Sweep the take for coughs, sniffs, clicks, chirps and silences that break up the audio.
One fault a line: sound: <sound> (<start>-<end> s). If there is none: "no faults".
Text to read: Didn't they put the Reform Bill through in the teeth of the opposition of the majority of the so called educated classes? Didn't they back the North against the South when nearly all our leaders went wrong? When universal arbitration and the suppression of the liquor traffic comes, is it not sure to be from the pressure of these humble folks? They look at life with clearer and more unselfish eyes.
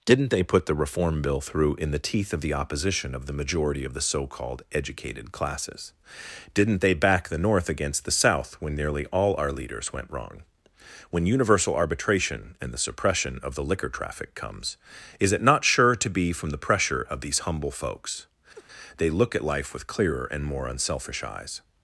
sound: laugh (18.5-18.7 s)